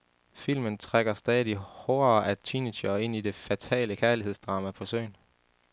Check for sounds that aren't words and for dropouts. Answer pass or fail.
pass